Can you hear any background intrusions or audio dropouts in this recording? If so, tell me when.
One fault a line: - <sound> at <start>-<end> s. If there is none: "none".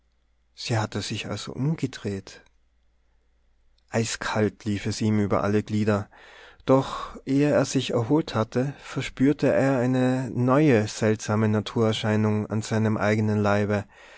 none